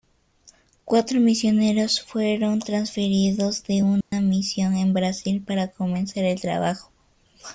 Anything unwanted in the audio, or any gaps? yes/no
yes